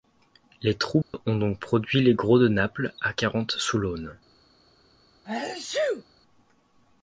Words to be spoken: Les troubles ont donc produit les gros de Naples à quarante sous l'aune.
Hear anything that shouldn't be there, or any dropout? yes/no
yes